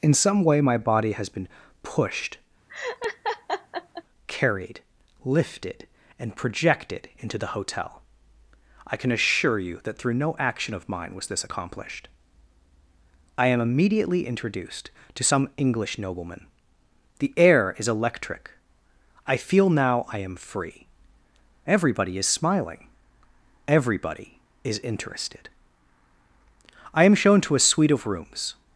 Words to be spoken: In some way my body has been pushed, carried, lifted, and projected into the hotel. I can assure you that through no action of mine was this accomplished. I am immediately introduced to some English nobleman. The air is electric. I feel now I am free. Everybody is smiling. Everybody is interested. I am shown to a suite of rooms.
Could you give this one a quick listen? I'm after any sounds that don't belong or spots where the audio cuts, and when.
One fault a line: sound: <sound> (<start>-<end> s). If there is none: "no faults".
sound: laugh (2.7-4.0 s)